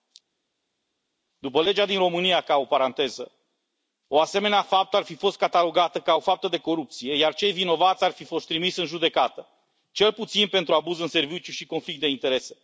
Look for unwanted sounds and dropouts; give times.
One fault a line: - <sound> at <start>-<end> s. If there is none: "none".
none